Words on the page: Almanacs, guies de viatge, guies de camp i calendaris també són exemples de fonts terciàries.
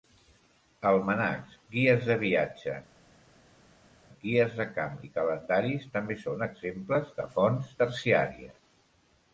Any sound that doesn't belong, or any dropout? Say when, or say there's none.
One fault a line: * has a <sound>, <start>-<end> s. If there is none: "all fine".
all fine